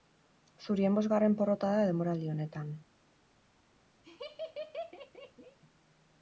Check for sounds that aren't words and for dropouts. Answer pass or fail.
fail